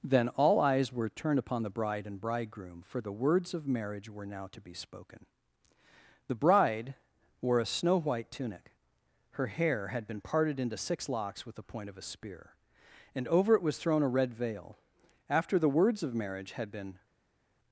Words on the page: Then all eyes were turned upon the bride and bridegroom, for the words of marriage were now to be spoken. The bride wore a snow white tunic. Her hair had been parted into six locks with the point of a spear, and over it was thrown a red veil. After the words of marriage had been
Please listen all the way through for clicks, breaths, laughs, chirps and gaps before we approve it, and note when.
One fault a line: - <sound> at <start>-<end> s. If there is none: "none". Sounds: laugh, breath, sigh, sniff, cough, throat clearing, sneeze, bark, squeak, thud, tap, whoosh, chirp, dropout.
none